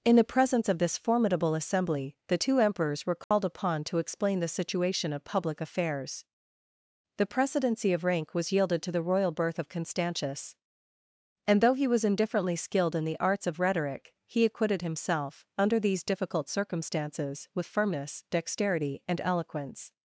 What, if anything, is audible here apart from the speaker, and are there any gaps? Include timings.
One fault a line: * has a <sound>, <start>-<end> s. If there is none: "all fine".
* has a dropout, 3.2-3.3 s